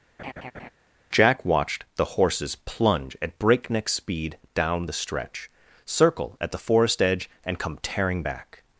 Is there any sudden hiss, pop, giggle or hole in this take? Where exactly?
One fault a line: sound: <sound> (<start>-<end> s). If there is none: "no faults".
sound: laugh (0.2-0.7 s)